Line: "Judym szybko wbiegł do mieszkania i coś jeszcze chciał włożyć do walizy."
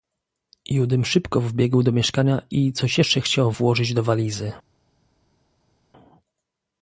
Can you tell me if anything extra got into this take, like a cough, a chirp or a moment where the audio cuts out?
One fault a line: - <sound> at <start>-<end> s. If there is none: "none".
none